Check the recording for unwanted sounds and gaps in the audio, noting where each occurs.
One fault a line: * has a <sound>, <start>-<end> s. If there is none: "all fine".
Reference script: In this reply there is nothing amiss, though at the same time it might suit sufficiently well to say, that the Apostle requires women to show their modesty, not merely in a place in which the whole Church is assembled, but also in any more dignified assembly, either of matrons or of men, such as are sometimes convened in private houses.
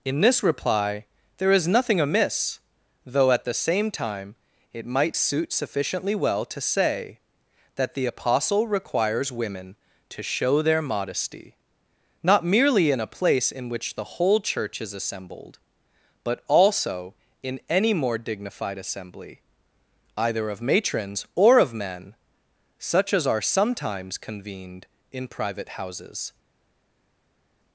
all fine